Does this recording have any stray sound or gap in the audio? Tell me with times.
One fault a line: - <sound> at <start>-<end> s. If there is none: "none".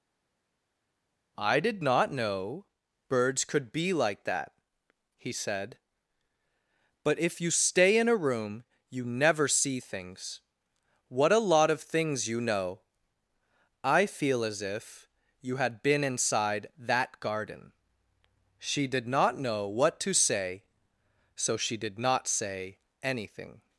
none